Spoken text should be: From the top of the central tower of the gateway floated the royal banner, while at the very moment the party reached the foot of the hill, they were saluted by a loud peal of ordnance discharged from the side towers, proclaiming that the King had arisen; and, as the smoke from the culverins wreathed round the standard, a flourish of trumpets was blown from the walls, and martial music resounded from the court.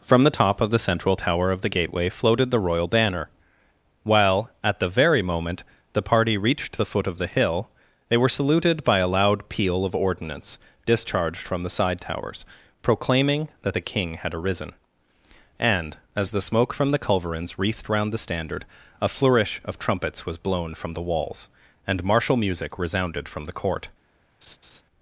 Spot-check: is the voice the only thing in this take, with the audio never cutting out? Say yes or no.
no